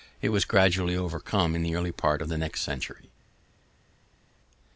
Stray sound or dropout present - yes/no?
no